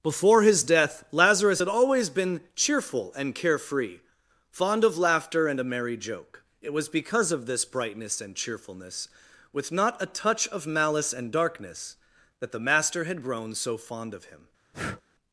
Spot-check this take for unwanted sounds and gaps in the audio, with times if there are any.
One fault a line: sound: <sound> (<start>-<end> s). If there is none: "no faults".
sound: breath (14.7-15.0 s)